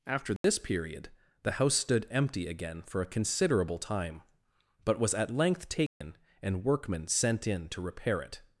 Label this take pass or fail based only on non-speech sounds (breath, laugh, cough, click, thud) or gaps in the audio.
fail